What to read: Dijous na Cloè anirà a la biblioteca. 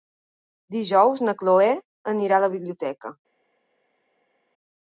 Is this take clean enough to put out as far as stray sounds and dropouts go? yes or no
yes